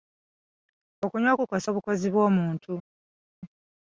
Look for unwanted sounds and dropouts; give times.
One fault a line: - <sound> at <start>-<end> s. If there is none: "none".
none